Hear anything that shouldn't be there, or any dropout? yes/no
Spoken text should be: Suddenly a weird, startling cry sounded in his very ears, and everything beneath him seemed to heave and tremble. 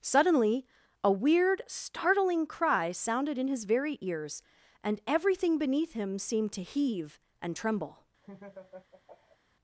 yes